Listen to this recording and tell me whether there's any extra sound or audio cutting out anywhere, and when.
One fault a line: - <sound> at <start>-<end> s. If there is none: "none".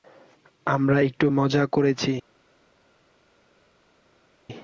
none